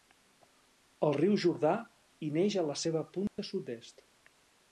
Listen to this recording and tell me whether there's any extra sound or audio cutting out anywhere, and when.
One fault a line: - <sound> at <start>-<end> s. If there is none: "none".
- dropout at 3.3-3.4 s